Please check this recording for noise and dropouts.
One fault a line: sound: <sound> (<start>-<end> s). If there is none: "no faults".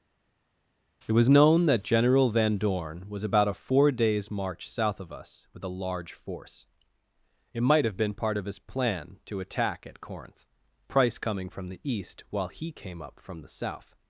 no faults